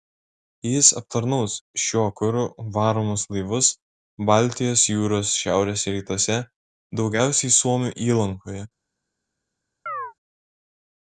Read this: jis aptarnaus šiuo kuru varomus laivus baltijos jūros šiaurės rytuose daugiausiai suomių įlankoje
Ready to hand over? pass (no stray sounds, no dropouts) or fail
fail